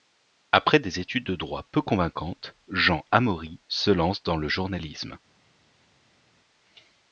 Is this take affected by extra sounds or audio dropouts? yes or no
no